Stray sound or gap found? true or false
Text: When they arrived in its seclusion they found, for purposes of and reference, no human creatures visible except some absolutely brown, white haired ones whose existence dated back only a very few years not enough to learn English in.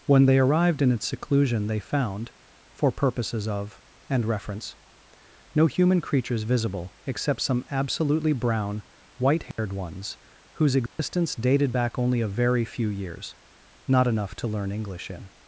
true